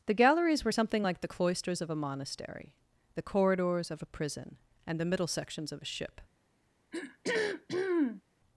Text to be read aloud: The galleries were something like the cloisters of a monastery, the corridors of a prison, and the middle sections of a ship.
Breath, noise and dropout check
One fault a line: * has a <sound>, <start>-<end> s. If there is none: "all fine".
* has a throat clearing, 6.9-8.2 s